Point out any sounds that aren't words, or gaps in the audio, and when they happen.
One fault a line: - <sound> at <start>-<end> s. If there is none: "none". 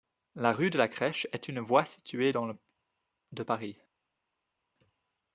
none